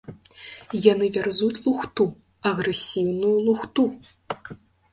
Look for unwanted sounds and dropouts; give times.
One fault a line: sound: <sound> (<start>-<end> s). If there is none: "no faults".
no faults